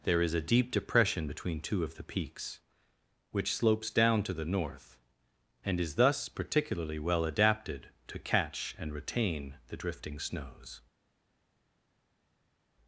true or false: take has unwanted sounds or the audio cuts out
false